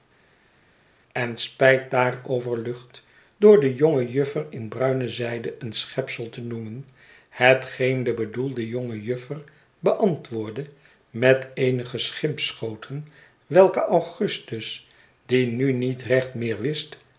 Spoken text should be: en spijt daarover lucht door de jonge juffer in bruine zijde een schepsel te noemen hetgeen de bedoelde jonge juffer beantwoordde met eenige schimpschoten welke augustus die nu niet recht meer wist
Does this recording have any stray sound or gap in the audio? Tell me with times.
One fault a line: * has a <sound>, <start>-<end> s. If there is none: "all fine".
all fine